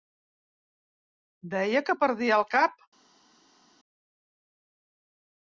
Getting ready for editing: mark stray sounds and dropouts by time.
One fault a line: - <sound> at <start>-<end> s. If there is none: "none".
none